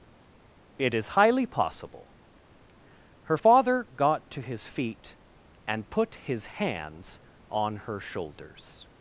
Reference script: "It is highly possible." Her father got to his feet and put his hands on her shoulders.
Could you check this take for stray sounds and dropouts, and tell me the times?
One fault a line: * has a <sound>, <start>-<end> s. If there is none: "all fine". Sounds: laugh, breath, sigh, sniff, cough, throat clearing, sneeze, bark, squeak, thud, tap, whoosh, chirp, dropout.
all fine